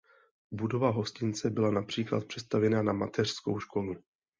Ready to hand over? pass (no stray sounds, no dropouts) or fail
pass